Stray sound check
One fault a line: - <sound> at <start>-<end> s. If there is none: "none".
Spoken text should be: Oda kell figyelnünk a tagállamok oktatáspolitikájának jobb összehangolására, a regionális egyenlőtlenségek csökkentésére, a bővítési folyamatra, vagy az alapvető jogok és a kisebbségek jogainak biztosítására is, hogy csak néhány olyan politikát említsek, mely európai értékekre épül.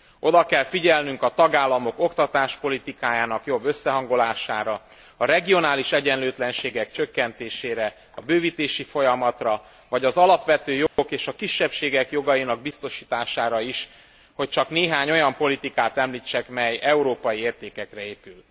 - dropout at 10.9-11.0 s